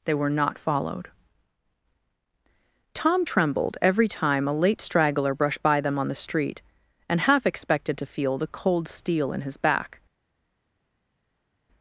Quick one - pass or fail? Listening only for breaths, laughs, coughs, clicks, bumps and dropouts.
pass